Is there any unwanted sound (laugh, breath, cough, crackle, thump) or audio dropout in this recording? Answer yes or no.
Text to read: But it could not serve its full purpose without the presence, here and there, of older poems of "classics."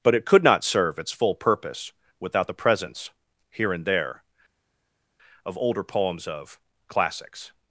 no